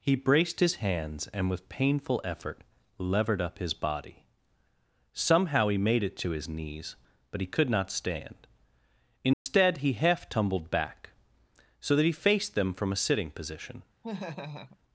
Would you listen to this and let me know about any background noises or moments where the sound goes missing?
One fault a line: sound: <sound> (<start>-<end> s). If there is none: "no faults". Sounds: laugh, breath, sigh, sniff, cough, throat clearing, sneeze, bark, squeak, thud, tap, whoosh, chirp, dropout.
sound: dropout (9.3-9.5 s)
sound: laugh (14.0-14.8 s)